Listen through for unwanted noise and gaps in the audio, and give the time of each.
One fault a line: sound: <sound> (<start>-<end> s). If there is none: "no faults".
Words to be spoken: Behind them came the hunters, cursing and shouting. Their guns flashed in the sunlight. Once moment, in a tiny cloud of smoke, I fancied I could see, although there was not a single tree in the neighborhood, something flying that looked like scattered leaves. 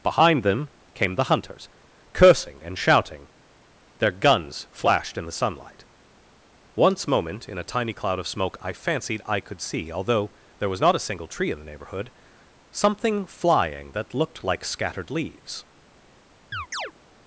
sound: chirp (16.5-16.9 s)